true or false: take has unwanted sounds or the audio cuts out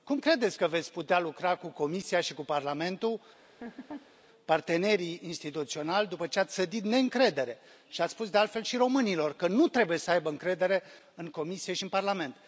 true